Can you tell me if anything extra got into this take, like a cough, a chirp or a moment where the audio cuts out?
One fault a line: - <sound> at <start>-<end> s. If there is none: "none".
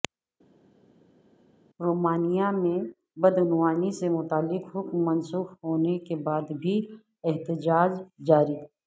none